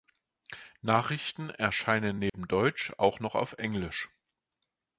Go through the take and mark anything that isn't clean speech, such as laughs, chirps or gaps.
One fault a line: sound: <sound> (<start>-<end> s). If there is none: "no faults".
sound: dropout (2.3-2.3 s)